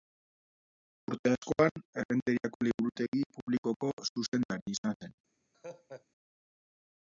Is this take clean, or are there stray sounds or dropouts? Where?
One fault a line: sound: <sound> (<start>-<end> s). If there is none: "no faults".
sound: laugh (5.5-6.1 s)